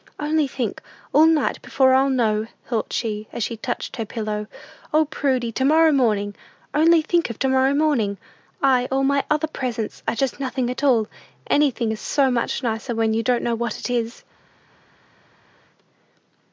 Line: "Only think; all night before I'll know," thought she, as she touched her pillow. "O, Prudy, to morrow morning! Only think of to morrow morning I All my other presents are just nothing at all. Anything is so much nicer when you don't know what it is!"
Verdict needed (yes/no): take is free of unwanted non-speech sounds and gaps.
yes